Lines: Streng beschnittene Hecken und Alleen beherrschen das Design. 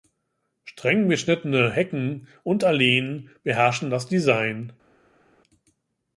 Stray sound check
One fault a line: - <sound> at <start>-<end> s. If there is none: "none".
none